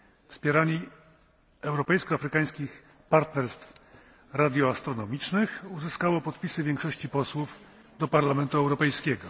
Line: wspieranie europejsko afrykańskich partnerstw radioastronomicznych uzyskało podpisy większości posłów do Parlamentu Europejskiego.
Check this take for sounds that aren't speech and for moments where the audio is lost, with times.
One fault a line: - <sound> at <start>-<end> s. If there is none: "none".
none